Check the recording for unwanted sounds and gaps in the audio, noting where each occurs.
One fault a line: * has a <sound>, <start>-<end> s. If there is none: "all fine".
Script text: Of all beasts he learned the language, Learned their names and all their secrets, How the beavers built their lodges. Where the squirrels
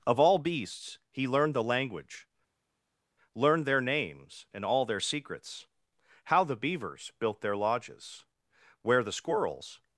all fine